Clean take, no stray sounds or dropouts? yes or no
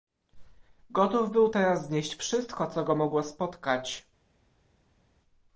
yes